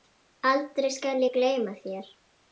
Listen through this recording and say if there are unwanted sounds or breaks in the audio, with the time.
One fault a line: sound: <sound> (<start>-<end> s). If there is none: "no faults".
no faults